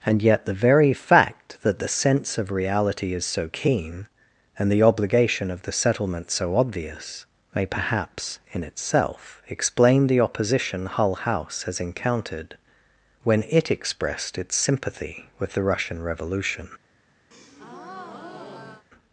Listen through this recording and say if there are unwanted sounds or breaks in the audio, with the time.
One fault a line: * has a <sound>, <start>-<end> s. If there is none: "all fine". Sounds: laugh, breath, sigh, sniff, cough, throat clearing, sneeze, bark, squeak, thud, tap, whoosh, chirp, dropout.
* has a breath, 17.3-18.9 s